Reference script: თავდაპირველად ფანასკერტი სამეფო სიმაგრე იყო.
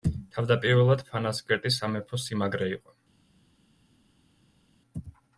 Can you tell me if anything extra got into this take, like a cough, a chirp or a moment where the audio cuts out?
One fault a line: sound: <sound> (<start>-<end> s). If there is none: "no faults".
no faults